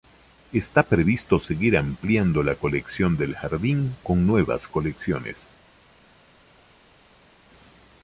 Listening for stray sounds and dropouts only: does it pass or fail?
pass